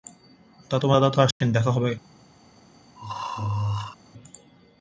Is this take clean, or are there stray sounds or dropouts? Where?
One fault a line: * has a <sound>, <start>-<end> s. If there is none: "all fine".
* has a dropout, 1.3-1.4 s
* has a throat clearing, 3.0-4.0 s